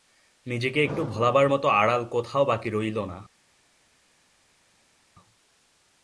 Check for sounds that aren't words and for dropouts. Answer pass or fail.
pass